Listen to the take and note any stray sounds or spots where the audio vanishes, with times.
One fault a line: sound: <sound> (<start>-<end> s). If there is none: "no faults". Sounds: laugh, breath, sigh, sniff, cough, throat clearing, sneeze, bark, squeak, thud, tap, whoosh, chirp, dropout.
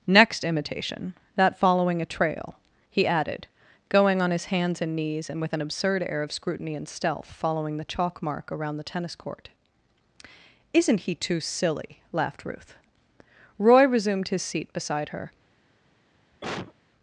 sound: cough (16.3-16.7 s)